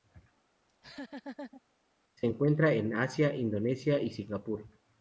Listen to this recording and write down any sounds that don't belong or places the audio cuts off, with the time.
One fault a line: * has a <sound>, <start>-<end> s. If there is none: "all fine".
* has a laugh, 0.7-1.6 s